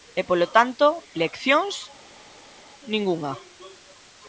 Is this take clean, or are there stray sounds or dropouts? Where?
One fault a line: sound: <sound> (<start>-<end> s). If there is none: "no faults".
no faults